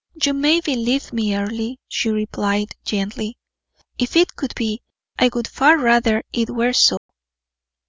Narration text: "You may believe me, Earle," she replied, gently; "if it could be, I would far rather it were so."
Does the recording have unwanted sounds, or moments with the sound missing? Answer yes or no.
yes